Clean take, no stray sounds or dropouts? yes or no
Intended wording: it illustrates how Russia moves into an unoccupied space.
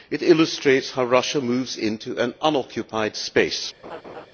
no